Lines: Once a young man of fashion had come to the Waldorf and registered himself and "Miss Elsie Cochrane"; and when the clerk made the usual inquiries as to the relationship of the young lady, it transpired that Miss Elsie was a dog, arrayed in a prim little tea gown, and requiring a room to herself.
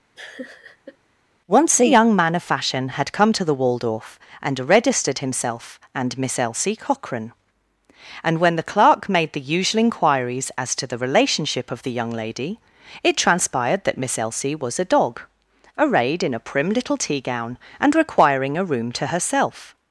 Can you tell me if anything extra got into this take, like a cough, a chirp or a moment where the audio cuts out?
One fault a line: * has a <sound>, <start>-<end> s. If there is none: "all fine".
* has a laugh, 0.2-1.0 s